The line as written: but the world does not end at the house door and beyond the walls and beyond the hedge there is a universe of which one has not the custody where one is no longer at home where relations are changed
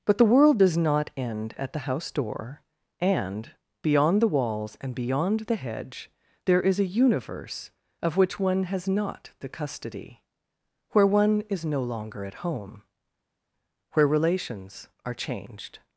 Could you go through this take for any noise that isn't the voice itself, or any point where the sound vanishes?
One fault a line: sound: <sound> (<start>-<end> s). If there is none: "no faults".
no faults